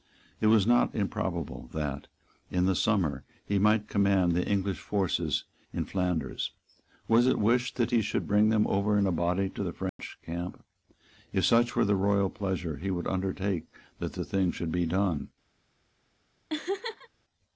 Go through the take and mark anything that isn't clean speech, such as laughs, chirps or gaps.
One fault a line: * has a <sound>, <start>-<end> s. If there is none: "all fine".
* has a dropout, 9.9-10.0 s
* has a laugh, 16.5-17.1 s